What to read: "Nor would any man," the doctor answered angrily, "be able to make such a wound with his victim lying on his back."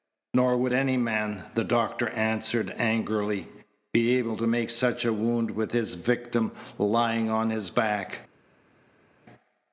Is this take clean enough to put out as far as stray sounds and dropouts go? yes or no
yes